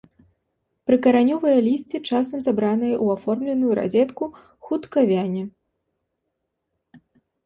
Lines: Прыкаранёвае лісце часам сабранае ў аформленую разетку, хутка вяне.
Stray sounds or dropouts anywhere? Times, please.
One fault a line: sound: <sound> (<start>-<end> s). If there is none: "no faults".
no faults